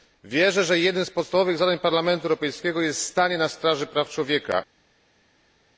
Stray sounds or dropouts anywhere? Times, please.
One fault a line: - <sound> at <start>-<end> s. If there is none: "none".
none